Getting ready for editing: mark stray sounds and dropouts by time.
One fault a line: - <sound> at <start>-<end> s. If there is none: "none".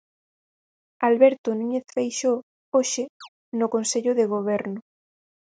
- chirp at 3.2-3.3 s